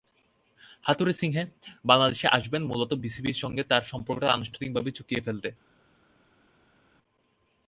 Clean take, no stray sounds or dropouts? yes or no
yes